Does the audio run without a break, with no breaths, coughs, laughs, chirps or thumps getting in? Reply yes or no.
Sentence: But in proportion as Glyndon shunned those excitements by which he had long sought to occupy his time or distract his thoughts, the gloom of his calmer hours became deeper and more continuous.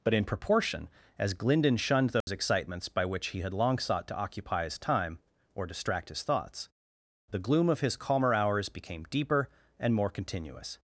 no